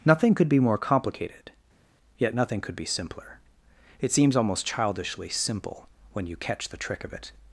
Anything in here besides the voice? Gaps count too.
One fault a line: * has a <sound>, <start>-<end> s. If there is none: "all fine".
all fine